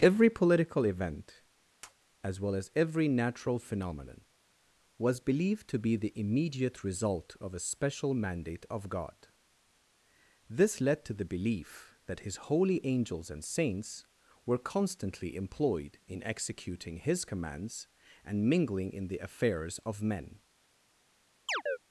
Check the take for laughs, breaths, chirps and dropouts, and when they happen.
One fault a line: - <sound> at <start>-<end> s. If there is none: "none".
- tap at 1.8-1.9 s
- chirp at 21.5-21.8 s